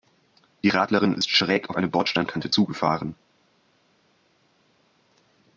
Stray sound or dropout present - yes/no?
no